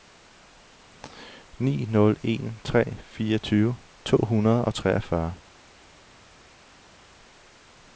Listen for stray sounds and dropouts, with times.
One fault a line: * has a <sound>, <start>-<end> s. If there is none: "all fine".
all fine